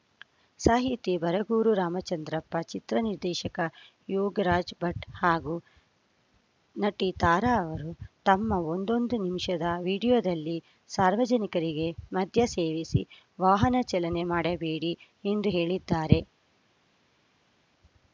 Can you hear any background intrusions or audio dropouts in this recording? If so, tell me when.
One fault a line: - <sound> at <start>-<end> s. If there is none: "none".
none